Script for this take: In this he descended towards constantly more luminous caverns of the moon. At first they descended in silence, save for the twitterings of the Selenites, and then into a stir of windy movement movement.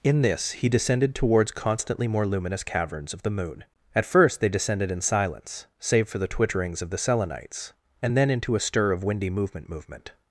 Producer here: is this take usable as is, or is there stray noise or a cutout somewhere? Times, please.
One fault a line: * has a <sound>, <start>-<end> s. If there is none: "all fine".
all fine